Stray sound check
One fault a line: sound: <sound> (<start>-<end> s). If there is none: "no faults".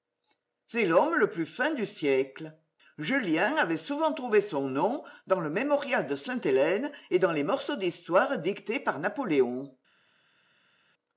no faults